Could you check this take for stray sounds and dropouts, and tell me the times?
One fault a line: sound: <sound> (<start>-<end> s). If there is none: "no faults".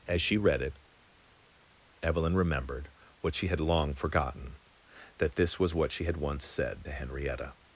no faults